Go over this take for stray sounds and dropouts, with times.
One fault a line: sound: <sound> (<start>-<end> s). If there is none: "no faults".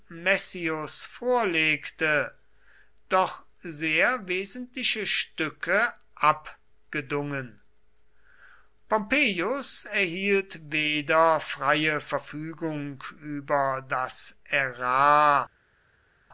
no faults